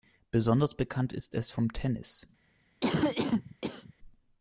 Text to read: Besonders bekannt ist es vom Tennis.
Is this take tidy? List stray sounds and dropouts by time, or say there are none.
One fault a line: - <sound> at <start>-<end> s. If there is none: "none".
- cough at 2.8-3.9 s